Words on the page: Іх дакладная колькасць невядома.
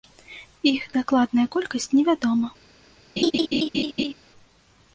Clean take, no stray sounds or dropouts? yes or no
no